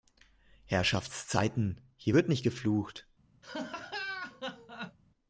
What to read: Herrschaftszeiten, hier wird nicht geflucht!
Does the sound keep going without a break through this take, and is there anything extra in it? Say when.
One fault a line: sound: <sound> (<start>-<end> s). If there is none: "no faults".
sound: laugh (3.4-5.0 s)